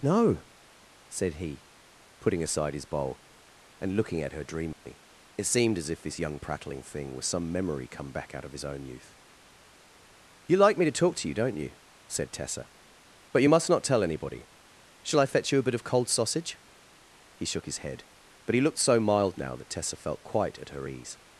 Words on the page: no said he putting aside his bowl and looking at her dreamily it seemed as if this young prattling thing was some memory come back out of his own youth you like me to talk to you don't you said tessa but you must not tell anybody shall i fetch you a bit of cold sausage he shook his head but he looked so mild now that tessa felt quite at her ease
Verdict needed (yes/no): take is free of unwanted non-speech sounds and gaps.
no